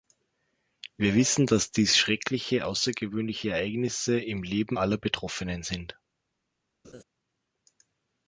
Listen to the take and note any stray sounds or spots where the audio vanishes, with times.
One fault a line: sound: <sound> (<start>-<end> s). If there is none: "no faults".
sound: laugh (6.8-7.0 s)